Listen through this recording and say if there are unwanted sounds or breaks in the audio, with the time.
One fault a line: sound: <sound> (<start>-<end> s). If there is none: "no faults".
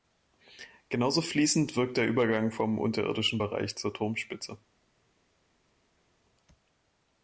no faults